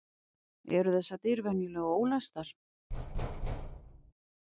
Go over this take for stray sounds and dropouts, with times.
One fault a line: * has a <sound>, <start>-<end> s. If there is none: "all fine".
* has a thud, 2.9-4.1 s